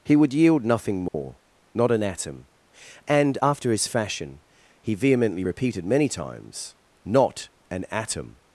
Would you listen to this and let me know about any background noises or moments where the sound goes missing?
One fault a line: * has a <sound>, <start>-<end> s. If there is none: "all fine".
* has a dropout, 1.1-1.1 s